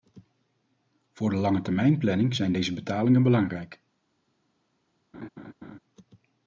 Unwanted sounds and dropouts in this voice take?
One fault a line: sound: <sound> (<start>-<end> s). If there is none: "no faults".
sound: laugh (5.1-5.8 s)